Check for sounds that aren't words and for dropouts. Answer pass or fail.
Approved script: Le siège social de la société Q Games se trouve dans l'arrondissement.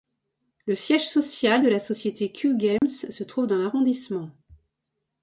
fail